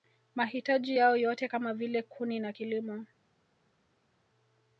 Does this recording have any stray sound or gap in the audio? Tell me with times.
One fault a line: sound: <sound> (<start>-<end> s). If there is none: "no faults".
no faults